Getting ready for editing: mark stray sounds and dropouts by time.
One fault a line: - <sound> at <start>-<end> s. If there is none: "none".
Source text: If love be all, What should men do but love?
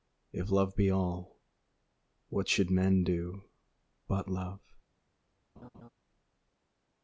- laugh at 5.6-5.9 s